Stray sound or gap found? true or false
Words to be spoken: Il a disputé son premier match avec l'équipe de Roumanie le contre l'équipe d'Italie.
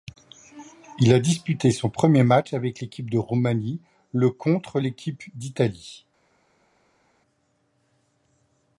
false